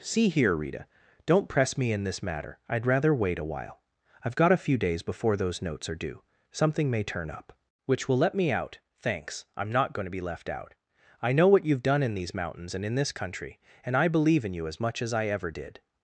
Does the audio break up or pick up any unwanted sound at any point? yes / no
no